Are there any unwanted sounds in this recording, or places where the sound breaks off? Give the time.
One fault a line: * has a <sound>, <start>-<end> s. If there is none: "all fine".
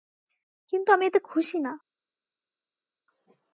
all fine